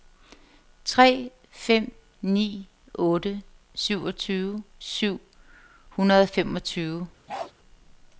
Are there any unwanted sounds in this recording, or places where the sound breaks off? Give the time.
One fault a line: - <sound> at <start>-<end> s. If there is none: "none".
- bark at 7.3-7.5 s